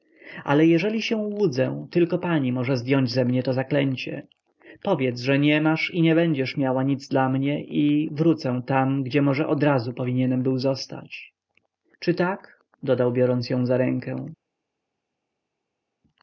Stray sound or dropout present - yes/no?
no